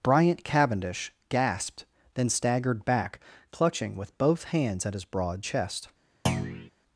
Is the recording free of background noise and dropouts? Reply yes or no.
no